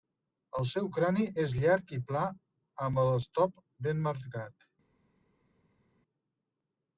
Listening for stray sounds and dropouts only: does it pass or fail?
pass